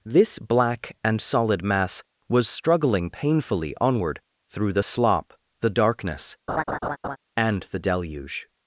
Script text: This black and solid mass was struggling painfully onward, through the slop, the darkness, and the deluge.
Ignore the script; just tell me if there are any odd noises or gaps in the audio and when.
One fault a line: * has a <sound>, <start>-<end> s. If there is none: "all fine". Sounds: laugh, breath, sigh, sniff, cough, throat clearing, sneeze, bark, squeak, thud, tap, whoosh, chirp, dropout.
* has a laugh, 6.5-7.2 s